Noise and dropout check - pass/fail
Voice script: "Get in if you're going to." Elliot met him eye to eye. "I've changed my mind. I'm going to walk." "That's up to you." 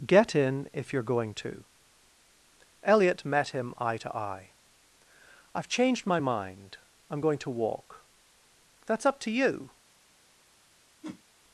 fail